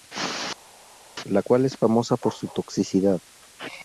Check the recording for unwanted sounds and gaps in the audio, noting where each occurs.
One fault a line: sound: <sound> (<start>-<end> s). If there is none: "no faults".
no faults